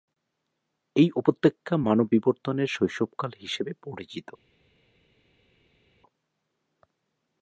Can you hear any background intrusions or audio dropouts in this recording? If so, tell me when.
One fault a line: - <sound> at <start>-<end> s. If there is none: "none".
none